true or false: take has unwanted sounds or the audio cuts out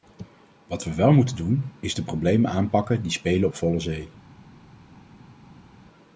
false